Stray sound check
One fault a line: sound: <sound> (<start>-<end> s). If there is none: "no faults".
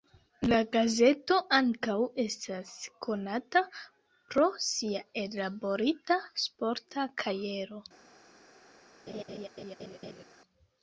sound: laugh (9.1-10.2 s)